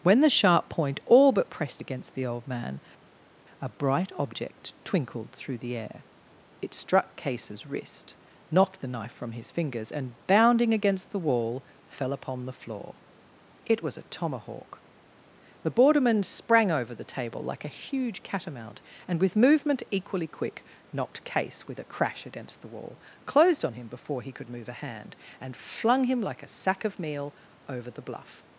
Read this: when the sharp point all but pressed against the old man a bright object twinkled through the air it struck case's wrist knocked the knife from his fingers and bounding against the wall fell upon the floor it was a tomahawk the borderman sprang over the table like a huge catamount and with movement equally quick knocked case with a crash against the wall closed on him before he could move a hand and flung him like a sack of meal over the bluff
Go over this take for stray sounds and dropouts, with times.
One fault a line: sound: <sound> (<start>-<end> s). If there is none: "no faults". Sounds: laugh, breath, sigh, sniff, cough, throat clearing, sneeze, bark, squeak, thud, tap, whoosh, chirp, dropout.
no faults